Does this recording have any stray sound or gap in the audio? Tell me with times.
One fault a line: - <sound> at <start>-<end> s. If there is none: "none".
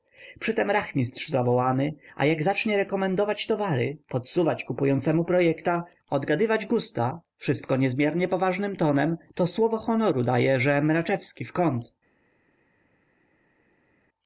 none